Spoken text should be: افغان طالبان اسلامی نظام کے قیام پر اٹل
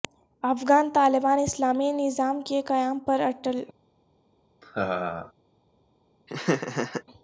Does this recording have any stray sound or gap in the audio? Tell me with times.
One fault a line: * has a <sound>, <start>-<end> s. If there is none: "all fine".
* has a laugh, 4.6-5.3 s
* has a laugh, 6.3-7.0 s